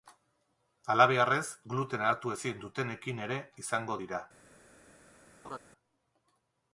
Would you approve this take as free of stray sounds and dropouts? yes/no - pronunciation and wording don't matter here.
no